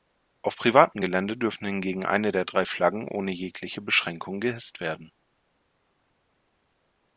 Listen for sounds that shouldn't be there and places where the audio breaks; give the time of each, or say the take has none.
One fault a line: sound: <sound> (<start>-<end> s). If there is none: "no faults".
no faults